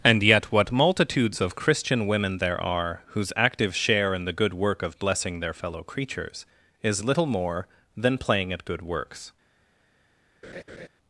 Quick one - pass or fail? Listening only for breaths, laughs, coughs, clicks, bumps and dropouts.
fail